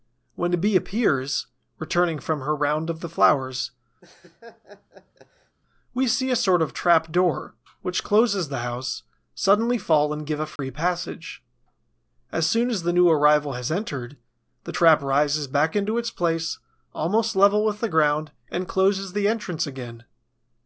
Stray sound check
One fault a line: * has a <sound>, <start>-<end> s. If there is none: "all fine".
* has a laugh, 4.0-5.6 s
* has a dropout, 10.6-10.6 s